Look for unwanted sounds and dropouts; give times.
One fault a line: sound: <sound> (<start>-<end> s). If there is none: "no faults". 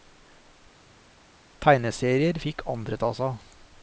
no faults